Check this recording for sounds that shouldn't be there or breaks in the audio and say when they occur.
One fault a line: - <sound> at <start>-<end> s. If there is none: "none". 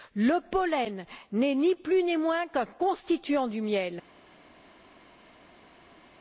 none